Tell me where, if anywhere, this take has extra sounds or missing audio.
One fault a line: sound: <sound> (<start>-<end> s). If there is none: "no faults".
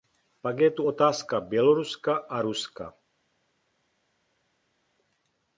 no faults